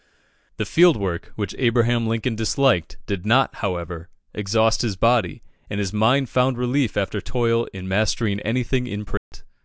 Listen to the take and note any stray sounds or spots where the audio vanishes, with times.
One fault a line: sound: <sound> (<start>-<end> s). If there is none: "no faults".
sound: dropout (9.2-9.3 s)